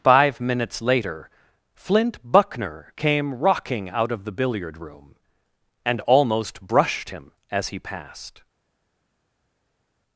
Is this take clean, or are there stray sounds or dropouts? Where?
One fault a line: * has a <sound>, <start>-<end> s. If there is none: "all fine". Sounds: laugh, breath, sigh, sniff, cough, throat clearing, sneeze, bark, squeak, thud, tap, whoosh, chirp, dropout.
all fine